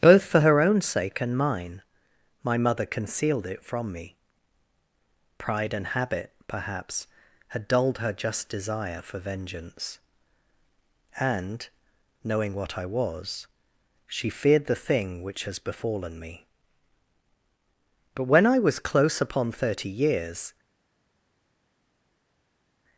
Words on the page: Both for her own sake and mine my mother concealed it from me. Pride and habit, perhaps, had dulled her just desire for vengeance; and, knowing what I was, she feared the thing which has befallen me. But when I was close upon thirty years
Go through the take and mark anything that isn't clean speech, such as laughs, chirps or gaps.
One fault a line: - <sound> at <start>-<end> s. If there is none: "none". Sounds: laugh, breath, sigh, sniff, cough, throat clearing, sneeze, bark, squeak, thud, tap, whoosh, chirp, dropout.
none